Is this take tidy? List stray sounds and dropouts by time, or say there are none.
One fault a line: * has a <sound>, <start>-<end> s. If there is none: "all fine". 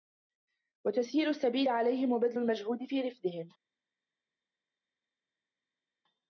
all fine